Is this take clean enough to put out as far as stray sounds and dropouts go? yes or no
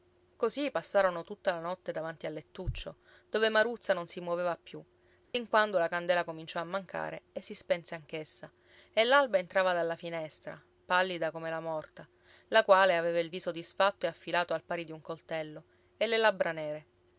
no